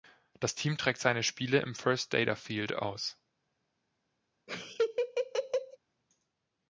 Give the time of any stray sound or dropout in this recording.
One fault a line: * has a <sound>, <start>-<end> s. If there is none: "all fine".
* has a laugh, 4.5-5.8 s